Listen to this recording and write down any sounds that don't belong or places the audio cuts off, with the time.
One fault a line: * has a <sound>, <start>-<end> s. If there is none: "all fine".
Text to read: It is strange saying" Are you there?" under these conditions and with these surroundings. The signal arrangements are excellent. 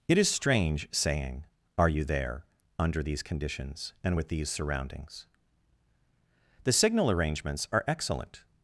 all fine